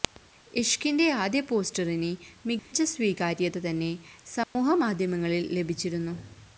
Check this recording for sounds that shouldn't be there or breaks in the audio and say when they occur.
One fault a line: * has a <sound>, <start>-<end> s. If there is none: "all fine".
* has a dropout, 2.6-2.7 s
* has a dropout, 4.4-4.5 s